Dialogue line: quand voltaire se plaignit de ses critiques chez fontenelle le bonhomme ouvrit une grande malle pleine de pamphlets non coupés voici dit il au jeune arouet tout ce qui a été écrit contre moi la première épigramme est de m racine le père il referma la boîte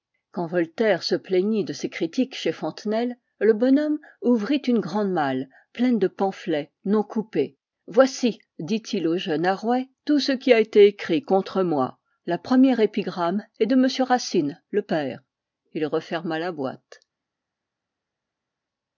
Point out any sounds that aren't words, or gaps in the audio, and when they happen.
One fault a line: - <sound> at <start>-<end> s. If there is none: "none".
none